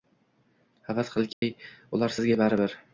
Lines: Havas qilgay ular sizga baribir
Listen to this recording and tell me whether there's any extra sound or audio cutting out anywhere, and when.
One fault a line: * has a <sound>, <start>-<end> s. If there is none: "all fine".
* has a dropout, 1.3-1.4 s